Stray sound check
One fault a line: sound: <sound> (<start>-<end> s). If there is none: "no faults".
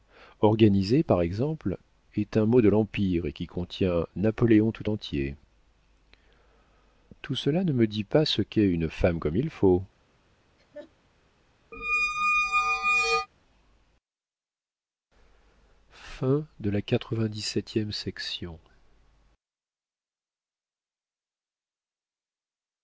sound: laugh (10.6-10.9 s)
sound: squeak (11.7-13.3 s)